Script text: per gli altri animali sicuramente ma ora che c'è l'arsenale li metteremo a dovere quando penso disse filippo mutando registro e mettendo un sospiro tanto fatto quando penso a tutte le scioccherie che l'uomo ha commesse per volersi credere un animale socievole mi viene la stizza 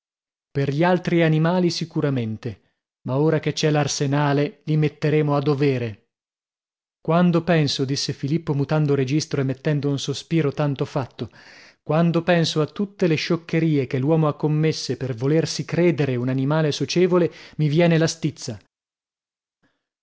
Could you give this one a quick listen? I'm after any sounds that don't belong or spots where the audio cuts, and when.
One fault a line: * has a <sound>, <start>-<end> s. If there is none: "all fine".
all fine